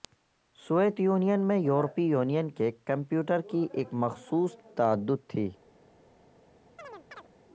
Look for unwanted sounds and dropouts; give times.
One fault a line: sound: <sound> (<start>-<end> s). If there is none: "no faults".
sound: chirp (6.8-7.3 s)